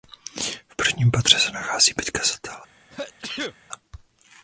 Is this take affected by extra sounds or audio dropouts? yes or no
yes